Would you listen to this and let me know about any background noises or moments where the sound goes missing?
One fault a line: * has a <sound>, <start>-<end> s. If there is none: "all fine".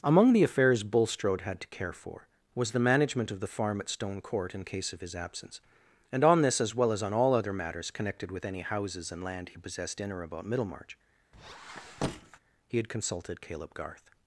* has a squeak, 11.3-12.4 s